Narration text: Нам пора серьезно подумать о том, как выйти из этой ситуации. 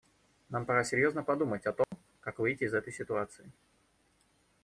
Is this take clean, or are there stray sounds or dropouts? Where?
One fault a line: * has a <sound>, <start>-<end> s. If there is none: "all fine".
* has a dropout, 1.8-1.9 s